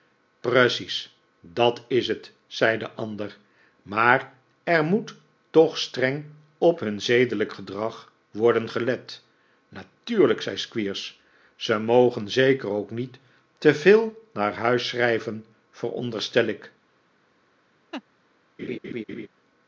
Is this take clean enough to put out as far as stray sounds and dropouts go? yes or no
no